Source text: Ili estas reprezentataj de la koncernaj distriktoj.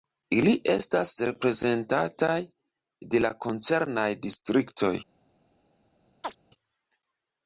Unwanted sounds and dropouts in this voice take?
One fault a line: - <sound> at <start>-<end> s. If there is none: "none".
- chirp at 6.2-6.4 s